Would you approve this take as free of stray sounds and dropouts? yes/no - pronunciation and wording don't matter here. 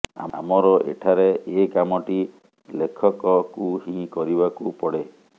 yes